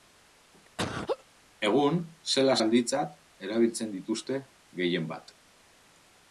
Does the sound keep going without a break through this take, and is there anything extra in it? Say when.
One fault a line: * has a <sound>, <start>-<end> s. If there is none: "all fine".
* has a laugh, 0.8-1.2 s